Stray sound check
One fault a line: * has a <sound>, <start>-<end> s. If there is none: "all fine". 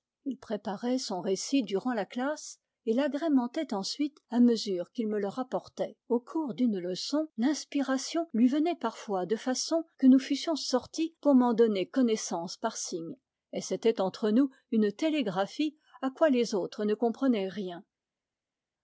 all fine